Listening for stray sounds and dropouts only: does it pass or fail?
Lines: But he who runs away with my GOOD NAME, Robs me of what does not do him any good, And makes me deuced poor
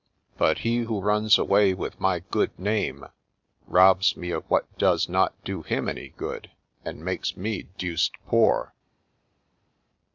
pass